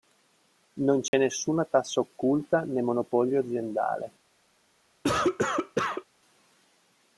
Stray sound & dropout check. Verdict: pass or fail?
fail